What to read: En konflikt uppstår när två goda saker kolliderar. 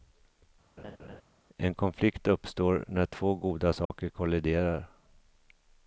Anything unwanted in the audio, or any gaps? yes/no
yes